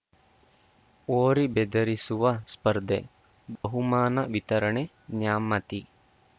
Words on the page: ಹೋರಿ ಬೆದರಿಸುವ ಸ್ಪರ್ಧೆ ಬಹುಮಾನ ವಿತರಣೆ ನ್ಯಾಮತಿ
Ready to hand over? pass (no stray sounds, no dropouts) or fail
fail